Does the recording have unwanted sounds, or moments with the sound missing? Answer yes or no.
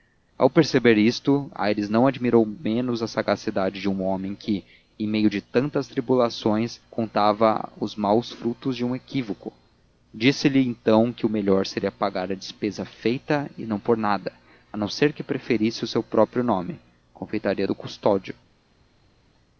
no